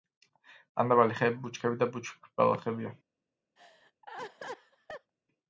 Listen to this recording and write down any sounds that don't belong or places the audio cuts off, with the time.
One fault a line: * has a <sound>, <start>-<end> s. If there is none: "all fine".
* has a laugh, 3.6-5.1 s